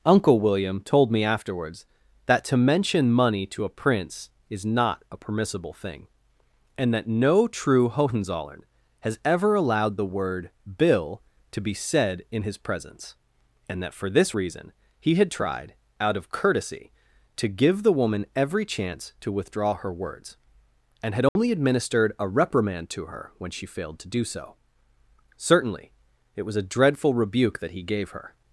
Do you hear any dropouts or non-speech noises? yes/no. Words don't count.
yes